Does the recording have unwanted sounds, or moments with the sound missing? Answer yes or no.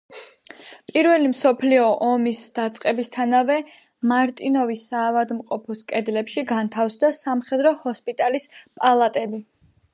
no